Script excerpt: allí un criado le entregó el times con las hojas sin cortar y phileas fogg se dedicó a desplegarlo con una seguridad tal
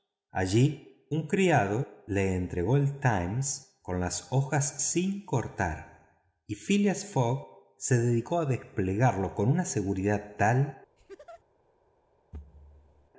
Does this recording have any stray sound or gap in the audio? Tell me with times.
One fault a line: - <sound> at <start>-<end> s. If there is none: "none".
- laugh at 11.0-11.4 s
- thud at 12.3-13.1 s